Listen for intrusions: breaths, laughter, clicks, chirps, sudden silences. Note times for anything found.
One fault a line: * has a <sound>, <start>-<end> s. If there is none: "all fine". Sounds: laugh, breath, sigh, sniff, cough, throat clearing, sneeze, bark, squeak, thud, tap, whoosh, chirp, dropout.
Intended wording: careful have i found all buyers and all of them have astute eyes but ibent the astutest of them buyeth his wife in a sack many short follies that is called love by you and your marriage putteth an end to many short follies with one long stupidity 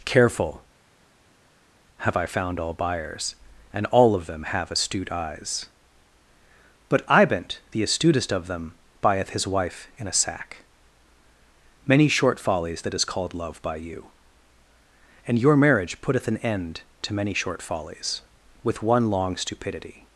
all fine